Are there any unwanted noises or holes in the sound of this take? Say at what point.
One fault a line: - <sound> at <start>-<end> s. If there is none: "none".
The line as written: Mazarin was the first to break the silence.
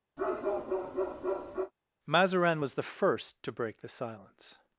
- bark at 0.2-1.7 s